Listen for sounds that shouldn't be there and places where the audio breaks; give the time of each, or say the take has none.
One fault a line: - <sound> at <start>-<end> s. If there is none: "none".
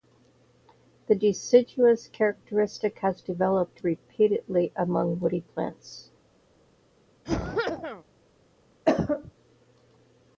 - cough at 7.2-8.0 s
- cough at 8.9-9.3 s